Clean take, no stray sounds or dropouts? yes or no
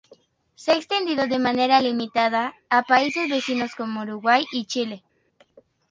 yes